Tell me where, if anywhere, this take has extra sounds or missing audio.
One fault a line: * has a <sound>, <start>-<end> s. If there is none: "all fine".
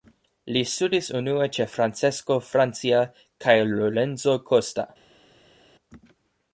all fine